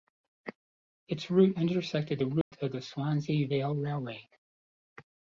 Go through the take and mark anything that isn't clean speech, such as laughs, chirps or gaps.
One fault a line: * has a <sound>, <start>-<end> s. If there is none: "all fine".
* has a dropout, 2.4-2.5 s